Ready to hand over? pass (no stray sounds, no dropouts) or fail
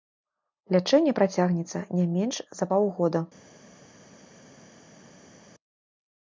pass